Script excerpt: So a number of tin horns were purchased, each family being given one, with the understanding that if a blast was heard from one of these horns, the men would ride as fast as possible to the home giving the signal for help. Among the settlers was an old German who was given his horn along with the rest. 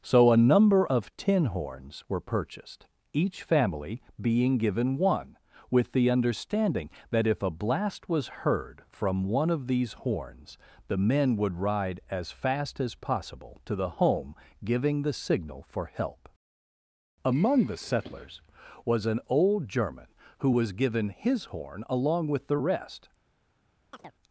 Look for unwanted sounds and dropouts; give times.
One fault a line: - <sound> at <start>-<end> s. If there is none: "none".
- chirp at 23.9-24.1 s